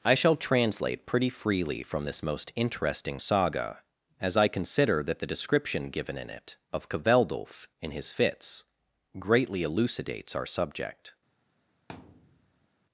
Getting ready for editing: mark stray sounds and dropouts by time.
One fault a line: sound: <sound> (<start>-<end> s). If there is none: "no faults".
sound: thud (11.9-12.7 s)